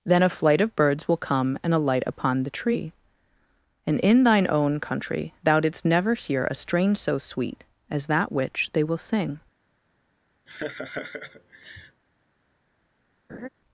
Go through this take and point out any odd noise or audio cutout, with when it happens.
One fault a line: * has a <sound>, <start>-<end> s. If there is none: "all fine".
* has a laugh, 10.5-12.0 s
* has a laugh, 13.3-13.5 s